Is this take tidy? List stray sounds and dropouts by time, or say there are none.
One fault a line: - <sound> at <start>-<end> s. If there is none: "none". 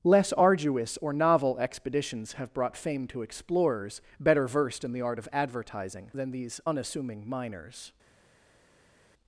none